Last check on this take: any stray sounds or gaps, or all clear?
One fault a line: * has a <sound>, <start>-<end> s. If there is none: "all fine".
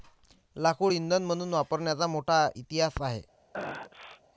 * has a sneeze, 3.5-4.2 s